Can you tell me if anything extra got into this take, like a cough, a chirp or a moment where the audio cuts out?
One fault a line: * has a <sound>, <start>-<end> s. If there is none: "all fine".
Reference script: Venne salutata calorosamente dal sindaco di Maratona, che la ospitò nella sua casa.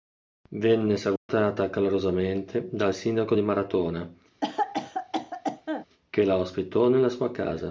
* has a dropout, 1.2-1.3 s
* has a cough, 4.4-5.9 s